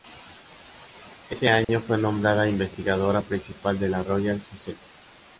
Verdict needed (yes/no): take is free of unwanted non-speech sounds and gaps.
no